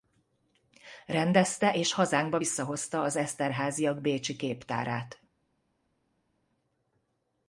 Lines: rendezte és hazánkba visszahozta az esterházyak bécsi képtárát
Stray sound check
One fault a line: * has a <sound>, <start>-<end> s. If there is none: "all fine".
all fine